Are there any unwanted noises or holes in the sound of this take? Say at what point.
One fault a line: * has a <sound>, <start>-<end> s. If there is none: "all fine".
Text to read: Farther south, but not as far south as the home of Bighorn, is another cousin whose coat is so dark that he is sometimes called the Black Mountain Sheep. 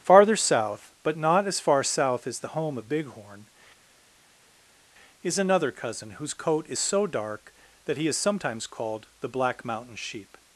all fine